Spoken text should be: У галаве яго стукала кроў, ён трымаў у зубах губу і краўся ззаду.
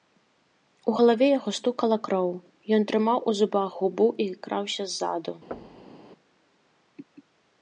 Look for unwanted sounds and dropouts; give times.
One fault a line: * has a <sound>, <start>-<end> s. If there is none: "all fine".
* has a thud, 5.5-6.1 s